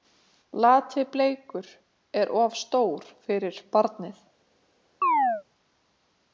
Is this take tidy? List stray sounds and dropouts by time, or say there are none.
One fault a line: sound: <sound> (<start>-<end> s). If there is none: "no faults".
sound: chirp (5.0-5.4 s)